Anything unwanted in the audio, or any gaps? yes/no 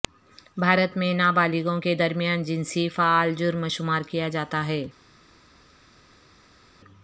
no